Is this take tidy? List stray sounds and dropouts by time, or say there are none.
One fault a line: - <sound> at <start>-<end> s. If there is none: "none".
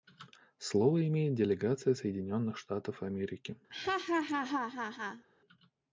- laugh at 3.7-5.2 s